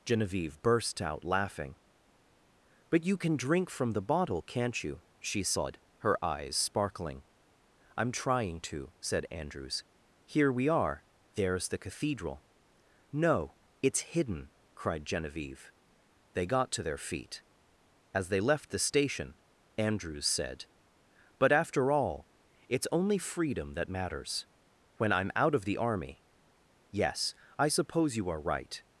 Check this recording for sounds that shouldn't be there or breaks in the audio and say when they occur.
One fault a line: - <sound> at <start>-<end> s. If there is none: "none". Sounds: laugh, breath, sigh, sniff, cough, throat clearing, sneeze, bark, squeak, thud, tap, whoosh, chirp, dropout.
none